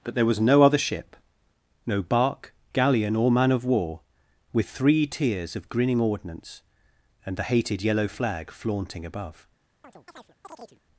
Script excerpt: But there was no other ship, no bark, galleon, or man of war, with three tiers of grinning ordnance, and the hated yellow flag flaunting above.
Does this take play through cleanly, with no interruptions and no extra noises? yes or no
no